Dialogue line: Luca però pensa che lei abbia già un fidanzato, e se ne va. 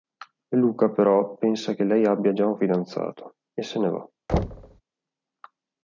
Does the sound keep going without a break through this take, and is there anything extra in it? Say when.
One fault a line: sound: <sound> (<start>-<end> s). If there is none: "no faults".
sound: thud (4.3-4.8 s)